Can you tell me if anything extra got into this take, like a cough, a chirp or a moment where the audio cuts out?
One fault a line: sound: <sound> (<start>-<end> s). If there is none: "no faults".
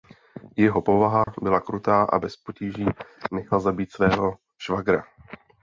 sound: dropout (1.2-1.3 s)